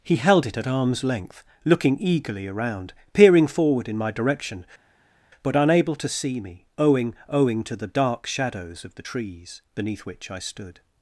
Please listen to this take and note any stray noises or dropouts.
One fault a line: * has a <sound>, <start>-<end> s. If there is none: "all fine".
all fine